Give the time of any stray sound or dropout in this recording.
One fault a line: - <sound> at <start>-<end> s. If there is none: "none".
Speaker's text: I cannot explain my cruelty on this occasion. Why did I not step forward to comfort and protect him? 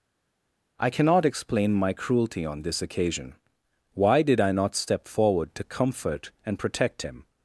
none